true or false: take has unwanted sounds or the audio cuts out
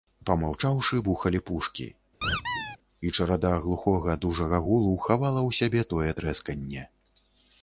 true